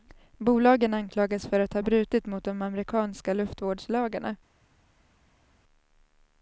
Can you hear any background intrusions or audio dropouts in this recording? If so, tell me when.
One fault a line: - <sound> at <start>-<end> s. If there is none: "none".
none